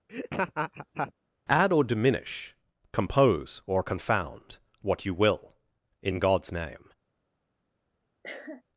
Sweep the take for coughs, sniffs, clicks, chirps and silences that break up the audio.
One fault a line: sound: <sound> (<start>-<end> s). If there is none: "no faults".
sound: laugh (0.1-1.1 s)
sound: cough (8.2-8.6 s)